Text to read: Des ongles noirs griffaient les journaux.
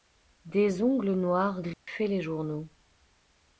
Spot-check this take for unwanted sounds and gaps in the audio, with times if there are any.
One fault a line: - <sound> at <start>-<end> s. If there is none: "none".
- dropout at 1.7-1.9 s